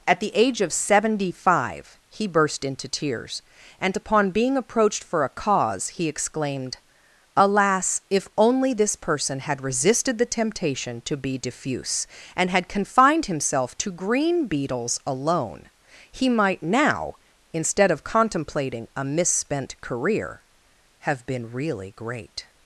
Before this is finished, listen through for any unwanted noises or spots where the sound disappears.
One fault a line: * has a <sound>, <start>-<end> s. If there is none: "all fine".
all fine